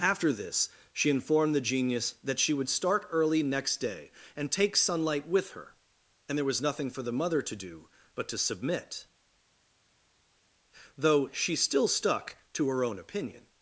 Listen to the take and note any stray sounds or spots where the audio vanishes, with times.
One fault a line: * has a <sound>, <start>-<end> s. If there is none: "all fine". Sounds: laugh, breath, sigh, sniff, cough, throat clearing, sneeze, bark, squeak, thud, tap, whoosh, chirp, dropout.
all fine